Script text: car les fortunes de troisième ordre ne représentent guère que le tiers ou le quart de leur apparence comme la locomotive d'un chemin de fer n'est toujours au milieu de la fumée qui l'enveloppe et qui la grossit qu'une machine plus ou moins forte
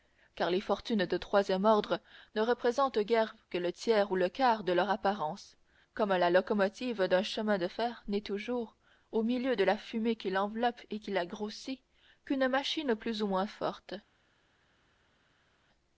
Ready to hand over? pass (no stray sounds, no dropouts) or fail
pass